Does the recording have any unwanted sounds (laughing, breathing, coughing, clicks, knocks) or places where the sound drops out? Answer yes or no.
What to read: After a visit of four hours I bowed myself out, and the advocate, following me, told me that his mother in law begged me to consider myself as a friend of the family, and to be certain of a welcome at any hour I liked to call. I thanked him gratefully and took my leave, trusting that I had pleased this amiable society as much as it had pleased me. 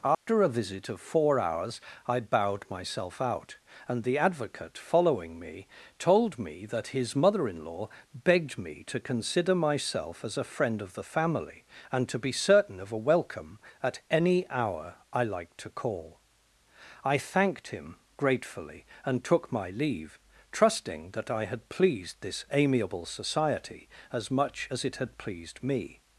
yes